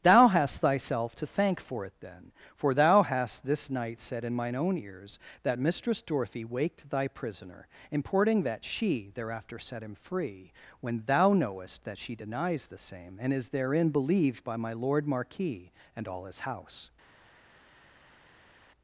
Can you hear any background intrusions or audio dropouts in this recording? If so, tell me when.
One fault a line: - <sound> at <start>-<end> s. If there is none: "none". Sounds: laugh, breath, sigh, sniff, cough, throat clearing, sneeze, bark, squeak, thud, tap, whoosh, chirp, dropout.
none